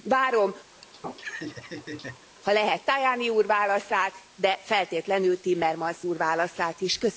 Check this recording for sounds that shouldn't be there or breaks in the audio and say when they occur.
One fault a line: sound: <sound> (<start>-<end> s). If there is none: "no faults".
sound: laugh (0.7-2.3 s)